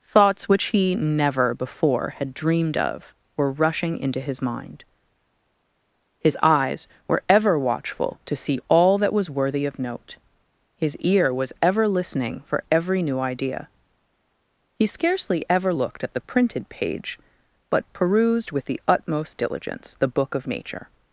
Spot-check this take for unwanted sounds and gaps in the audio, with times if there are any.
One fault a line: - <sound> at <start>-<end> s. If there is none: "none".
none